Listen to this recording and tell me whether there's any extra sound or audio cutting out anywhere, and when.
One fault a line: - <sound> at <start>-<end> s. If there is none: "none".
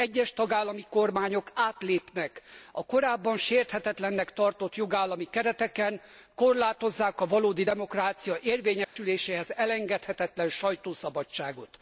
- dropout at 8.8-9.0 s